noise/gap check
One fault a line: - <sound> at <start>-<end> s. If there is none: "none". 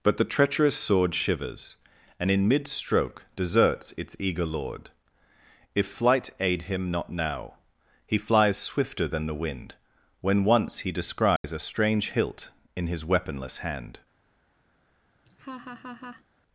- dropout at 11.4-11.4 s
- laugh at 15.3-16.2 s